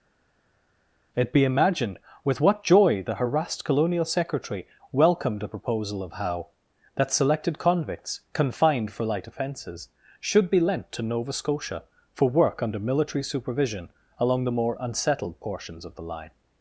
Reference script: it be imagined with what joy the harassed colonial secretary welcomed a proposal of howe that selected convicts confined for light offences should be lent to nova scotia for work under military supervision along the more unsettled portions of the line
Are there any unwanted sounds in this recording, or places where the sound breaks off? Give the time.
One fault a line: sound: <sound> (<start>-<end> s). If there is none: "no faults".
no faults